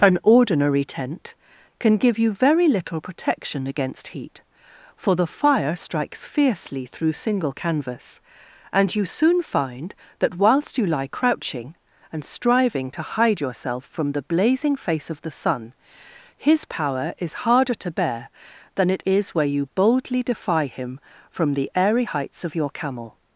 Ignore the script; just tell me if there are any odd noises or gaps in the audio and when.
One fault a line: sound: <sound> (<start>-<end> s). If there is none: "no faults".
no faults